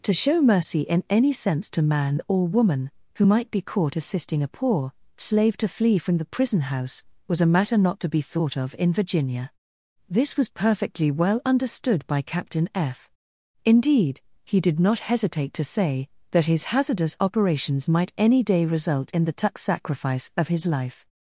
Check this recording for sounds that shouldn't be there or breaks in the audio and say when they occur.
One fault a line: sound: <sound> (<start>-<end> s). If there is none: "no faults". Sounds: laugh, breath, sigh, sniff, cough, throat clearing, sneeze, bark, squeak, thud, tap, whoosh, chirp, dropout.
no faults